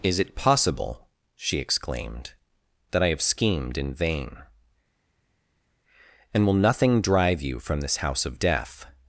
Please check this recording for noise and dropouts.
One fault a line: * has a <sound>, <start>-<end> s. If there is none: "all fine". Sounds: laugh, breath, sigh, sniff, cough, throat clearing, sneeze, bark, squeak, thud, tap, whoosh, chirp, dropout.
all fine